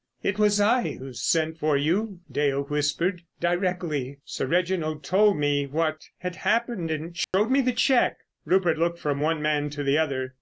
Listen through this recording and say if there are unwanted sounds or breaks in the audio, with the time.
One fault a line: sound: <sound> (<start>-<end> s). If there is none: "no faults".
sound: dropout (7.2-7.3 s)